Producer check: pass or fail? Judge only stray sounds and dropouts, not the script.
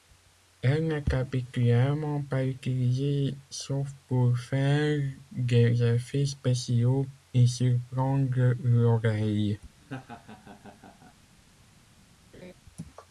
fail